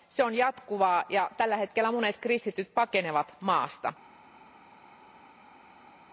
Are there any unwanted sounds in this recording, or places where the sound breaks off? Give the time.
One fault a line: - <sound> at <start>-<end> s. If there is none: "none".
none